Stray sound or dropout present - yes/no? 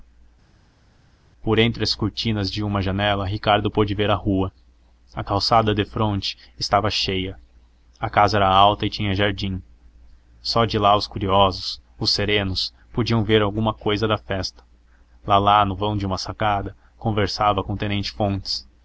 no